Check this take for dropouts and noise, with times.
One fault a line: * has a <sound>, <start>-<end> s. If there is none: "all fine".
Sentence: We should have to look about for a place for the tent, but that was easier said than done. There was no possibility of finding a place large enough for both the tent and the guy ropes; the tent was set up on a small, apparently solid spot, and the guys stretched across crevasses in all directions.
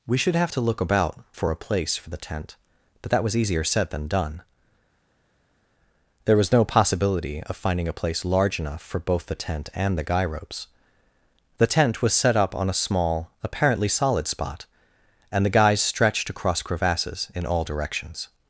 all fine